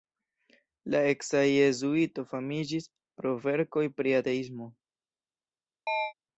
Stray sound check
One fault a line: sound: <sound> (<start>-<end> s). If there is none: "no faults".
sound: chirp (5.9-6.1 s)